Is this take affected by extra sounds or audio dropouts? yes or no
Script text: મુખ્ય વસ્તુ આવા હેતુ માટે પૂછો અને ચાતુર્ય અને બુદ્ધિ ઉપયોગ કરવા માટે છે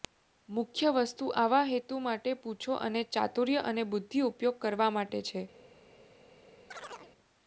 yes